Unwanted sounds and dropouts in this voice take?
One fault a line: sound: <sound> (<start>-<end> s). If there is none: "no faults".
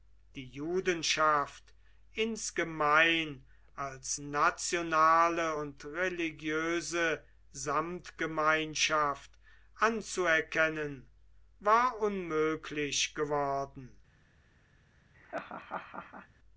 sound: laugh (15.1-16.3 s)